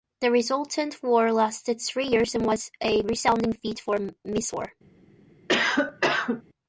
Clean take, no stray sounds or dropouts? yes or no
no